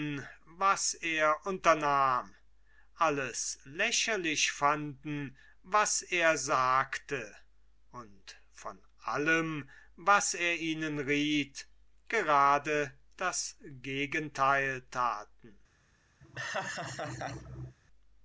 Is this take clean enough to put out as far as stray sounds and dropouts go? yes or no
no